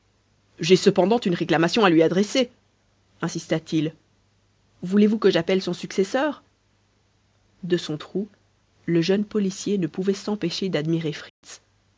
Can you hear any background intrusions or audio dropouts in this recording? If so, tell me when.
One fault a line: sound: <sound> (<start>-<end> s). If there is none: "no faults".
sound: dropout (11.3-11.4 s)